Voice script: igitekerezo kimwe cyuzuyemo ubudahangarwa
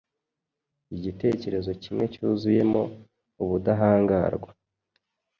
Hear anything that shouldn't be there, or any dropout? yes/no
no